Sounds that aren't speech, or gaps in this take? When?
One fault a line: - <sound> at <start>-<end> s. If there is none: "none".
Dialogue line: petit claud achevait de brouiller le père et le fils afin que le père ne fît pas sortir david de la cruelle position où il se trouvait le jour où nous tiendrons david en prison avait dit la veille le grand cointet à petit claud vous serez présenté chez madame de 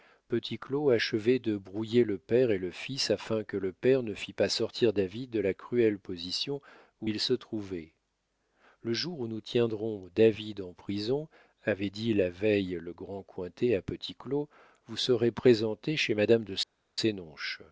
none